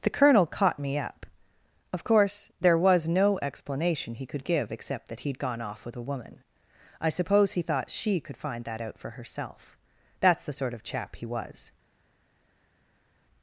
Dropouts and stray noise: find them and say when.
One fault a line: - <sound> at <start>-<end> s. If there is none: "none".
none